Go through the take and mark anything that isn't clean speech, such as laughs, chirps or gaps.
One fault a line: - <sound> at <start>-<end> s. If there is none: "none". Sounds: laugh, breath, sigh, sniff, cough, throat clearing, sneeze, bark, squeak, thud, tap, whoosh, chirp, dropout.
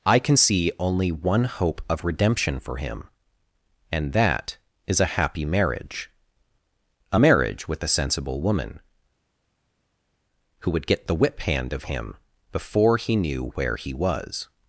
none